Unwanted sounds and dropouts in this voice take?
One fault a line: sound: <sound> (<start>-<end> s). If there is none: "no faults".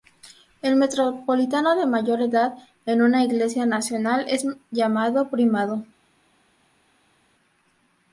no faults